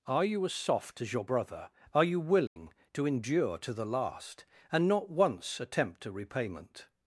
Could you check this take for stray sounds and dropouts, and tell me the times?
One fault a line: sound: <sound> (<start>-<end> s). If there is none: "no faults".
sound: dropout (2.5-2.6 s)